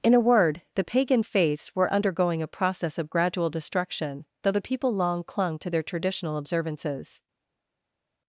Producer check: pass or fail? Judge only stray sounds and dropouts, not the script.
pass